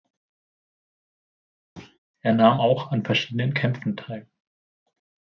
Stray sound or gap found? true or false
true